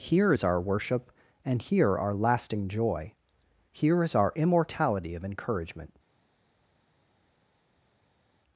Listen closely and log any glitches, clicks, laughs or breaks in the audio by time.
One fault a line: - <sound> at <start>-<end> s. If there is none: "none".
none